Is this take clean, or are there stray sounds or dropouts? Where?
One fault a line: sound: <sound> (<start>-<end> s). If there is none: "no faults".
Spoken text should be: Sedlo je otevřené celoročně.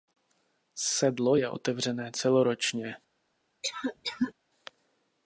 sound: cough (3.6-4.3 s)